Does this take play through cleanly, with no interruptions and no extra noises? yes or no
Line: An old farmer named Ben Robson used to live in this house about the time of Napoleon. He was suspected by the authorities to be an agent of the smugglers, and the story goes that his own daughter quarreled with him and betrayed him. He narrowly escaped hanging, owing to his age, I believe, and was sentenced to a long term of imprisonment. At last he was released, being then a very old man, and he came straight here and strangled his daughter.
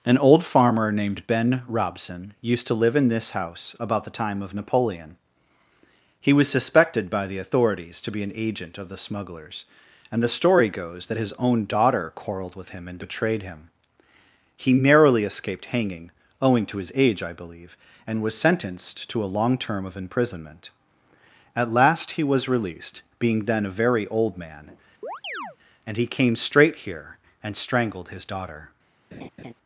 no